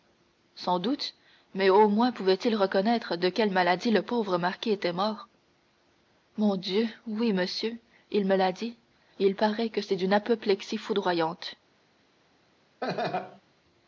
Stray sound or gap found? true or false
true